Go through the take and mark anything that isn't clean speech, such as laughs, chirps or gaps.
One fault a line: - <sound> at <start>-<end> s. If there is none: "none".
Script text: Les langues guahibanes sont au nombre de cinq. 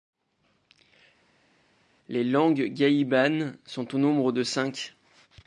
none